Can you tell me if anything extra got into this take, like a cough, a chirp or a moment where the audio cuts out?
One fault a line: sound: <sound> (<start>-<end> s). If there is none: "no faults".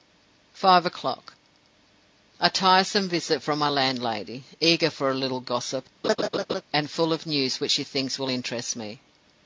sound: laugh (6.0-6.6 s)